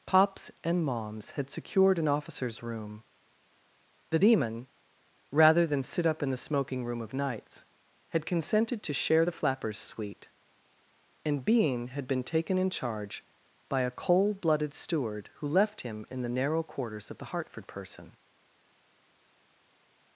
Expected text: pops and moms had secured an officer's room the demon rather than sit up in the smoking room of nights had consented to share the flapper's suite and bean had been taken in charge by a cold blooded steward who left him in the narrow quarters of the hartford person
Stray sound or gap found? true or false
false